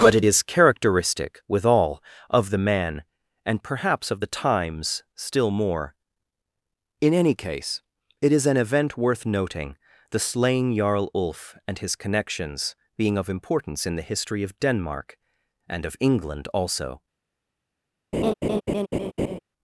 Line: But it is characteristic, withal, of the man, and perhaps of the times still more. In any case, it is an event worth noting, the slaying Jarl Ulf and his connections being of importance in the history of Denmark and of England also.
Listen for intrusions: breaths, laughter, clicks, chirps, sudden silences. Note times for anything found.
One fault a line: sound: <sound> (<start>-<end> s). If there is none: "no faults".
sound: laugh (18.1-19.4 s)